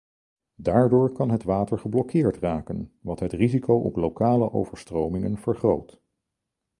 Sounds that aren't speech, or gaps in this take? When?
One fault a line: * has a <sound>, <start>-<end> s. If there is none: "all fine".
all fine